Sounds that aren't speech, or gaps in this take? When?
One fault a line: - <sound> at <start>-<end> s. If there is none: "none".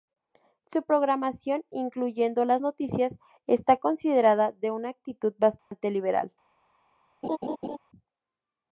- dropout at 5.6-5.7 s
- laugh at 7.2-7.8 s